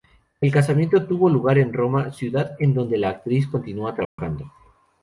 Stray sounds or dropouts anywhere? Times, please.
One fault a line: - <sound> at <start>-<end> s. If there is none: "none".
- dropout at 4.0-4.2 s